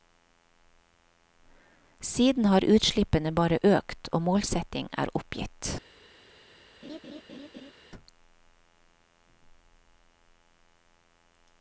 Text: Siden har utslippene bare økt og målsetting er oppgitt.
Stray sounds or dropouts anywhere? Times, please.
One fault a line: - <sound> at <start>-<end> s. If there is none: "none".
- laugh at 6.8-7.7 s